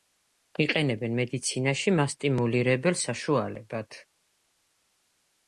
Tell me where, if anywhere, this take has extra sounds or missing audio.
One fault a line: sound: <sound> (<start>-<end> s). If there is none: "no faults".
no faults